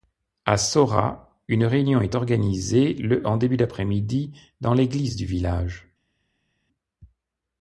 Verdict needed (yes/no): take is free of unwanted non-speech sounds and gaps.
yes